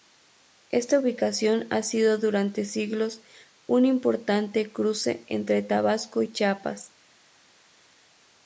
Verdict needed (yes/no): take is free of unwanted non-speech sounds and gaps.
yes